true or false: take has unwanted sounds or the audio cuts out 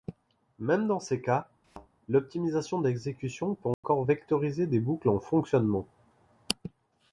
true